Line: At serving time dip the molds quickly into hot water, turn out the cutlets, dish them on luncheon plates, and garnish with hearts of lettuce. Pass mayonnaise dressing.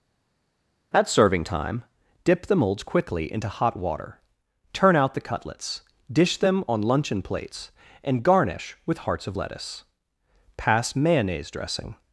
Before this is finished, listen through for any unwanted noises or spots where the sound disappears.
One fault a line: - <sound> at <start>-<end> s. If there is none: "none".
none